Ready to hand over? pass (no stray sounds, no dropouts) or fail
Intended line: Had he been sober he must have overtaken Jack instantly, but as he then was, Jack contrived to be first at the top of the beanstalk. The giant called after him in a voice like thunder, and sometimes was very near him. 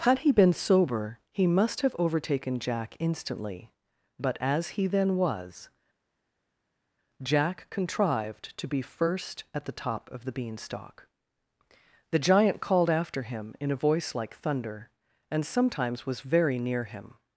pass